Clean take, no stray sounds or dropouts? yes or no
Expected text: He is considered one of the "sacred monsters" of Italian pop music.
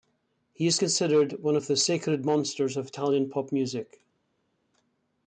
yes